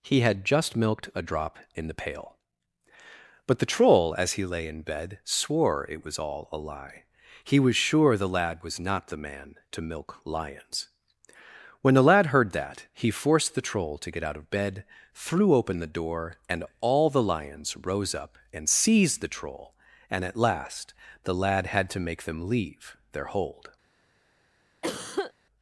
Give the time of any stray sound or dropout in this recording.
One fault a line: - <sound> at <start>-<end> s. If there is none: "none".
- cough at 24.8-25.3 s